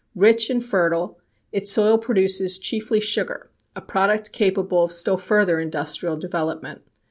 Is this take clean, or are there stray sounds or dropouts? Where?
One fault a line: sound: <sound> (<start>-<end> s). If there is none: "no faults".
no faults